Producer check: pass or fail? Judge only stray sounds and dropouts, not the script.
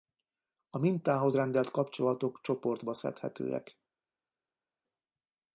pass